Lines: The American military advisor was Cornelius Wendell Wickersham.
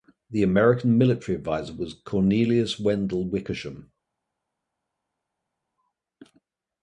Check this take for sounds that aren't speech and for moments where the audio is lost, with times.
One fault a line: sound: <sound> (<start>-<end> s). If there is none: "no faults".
no faults